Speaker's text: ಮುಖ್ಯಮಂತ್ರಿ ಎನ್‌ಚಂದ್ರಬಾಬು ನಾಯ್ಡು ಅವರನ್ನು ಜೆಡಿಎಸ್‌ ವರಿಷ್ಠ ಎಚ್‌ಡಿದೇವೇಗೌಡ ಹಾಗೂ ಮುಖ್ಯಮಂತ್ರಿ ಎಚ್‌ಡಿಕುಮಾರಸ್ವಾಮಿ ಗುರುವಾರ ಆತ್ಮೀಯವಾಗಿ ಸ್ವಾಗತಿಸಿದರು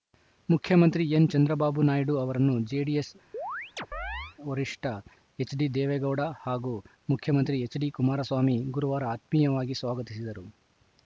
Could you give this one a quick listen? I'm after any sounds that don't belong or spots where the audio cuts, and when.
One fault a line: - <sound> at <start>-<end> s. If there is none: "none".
- chirp at 3.3-4.4 s